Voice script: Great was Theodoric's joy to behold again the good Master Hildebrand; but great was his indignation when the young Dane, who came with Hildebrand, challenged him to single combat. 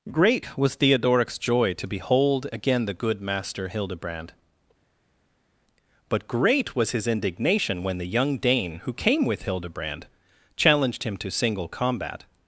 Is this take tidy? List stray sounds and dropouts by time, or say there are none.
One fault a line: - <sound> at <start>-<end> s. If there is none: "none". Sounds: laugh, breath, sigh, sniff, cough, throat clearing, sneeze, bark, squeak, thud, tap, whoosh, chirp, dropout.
none